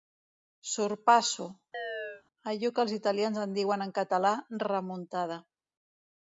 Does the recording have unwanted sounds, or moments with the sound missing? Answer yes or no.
yes